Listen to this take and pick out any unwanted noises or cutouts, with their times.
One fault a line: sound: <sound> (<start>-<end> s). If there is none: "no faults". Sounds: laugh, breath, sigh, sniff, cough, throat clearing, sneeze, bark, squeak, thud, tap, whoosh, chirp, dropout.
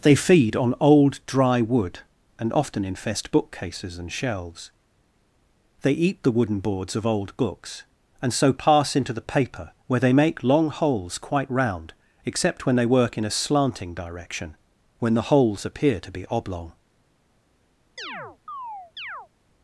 sound: chirp (18.0-19.3 s)